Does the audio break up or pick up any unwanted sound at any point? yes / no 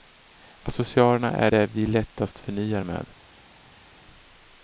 no